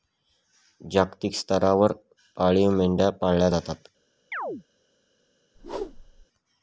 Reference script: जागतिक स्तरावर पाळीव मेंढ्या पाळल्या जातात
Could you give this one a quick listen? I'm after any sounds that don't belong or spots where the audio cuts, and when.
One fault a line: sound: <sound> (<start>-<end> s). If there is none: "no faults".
sound: chirp (4.3-4.6 s)
sound: whoosh (5.5-6.3 s)